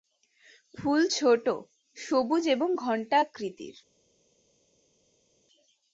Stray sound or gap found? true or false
false